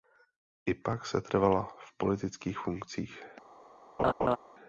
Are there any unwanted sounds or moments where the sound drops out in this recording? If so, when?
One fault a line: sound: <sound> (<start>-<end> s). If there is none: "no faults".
sound: laugh (4.0-4.4 s)